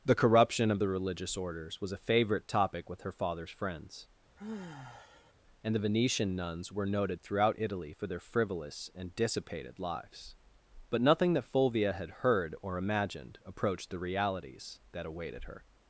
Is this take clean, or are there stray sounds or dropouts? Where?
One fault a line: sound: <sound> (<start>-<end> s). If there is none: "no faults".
sound: sigh (4.4-5.3 s)